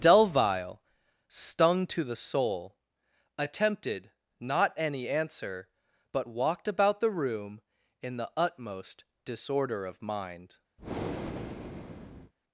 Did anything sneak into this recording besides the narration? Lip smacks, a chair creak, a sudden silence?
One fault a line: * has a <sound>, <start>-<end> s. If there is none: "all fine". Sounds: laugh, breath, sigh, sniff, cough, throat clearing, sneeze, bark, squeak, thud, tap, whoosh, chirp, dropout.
* has a breath, 10.8-12.3 s